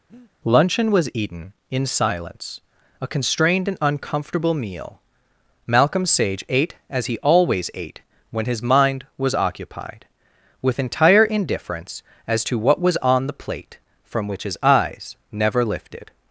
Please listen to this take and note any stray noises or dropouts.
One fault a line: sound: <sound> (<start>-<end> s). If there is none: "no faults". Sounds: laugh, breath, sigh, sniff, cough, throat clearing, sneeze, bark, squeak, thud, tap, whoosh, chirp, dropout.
sound: breath (0.1-0.3 s)